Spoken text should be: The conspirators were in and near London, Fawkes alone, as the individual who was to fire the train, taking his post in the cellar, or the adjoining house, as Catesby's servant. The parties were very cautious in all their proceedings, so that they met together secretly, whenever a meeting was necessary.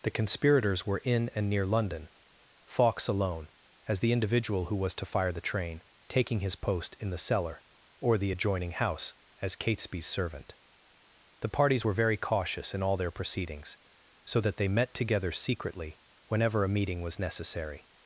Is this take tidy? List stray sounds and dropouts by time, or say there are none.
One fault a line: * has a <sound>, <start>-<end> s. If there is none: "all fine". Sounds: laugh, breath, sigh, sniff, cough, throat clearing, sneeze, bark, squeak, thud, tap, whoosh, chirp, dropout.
all fine